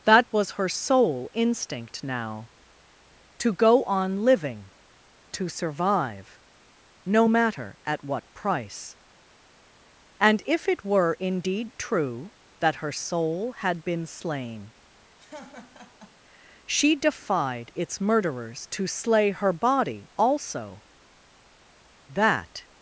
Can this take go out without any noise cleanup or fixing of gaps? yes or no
no